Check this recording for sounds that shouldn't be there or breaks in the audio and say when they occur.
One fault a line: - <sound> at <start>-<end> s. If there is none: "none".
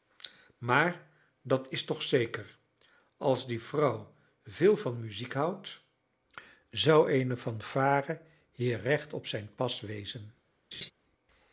- laugh at 10.7-10.9 s